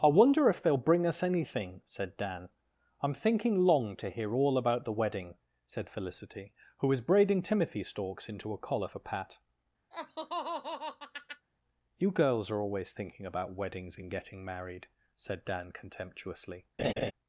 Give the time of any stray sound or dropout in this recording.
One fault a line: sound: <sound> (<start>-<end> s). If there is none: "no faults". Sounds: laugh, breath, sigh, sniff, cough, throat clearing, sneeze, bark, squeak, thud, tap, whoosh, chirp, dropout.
sound: laugh (9.9-11.5 s)
sound: laugh (16.8-17.1 s)